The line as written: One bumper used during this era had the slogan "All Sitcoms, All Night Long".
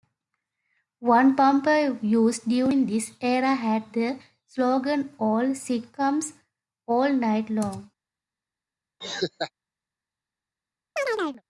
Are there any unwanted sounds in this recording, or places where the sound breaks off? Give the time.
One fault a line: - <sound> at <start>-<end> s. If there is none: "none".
- laugh at 9.0-9.5 s
- chirp at 11.0-11.4 s